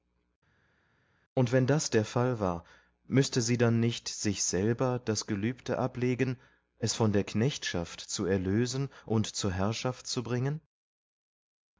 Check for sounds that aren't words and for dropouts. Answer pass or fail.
pass